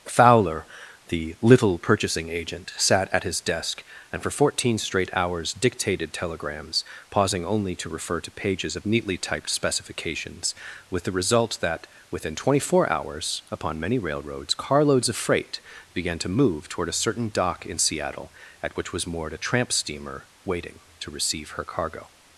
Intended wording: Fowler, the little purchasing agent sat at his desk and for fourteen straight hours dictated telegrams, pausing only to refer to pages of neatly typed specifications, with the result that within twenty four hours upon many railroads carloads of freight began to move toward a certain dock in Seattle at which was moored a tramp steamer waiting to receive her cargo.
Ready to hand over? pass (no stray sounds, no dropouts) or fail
pass